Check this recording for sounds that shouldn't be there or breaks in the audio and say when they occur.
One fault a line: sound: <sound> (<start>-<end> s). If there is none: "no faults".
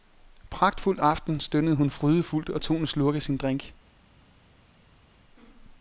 no faults